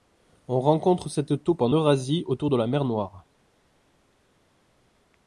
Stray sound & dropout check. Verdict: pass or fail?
pass